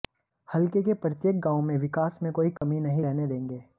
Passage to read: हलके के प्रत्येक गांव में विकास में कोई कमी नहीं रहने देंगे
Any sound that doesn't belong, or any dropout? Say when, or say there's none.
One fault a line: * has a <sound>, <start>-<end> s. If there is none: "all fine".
* has a dropout, 2.6-2.6 s